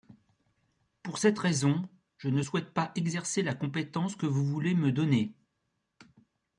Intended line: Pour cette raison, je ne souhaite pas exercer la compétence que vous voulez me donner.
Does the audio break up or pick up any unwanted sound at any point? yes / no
no